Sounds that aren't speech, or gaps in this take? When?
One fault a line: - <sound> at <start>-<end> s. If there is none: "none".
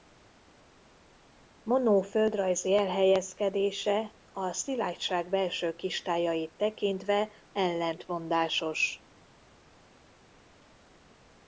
none